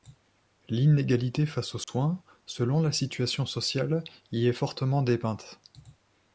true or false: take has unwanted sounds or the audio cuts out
true